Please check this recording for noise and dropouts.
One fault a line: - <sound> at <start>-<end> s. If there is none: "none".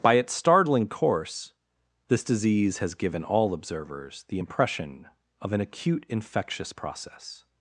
none